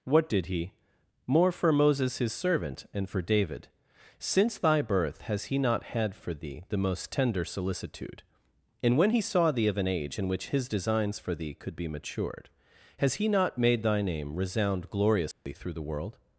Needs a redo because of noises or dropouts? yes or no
yes